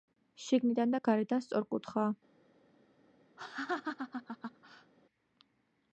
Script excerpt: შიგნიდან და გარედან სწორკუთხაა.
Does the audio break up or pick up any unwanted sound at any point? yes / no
yes